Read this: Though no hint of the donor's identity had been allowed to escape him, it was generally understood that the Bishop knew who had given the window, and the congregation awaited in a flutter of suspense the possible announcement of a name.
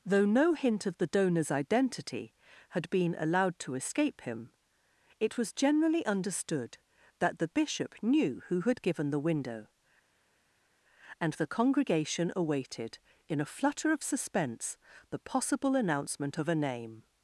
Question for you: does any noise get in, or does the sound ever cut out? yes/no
no